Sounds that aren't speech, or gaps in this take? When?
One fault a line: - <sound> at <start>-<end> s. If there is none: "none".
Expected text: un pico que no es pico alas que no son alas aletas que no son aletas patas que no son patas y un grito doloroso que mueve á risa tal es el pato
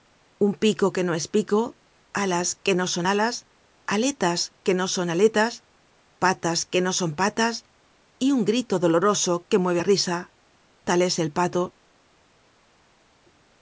none